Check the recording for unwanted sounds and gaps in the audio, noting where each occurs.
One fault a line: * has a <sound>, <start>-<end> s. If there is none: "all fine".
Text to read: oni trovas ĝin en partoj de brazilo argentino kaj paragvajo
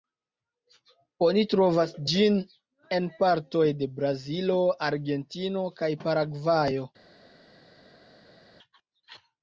all fine